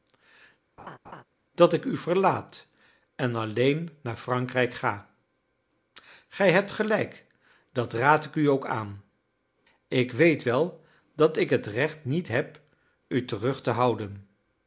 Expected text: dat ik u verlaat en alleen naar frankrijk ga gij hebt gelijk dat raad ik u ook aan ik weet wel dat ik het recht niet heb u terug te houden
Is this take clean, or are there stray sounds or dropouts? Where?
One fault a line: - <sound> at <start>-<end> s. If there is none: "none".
- laugh at 0.8-1.2 s